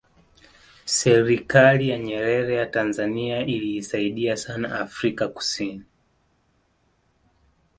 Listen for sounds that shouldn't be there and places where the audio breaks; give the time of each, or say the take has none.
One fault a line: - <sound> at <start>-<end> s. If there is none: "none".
none